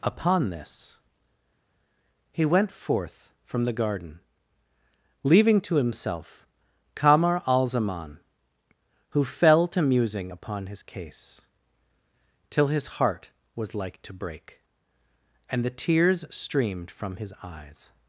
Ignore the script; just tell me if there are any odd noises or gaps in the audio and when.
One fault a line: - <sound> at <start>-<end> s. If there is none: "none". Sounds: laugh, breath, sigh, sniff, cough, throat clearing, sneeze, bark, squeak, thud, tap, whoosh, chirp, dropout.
none